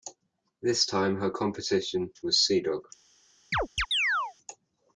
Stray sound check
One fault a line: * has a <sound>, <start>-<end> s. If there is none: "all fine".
* has a chirp, 3.5-4.3 s